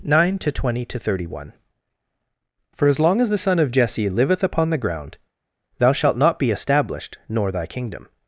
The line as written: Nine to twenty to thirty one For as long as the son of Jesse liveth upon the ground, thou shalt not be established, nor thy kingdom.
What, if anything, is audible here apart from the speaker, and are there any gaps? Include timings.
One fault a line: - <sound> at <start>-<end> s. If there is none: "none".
none